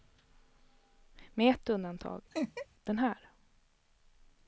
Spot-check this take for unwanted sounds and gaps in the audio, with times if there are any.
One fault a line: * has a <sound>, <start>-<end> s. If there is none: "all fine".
* has a laugh, 2.3-2.7 s